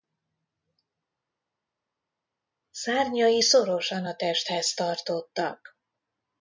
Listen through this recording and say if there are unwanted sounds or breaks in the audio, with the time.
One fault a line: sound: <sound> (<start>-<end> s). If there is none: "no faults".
no faults